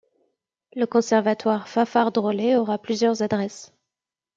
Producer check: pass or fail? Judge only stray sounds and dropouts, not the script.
pass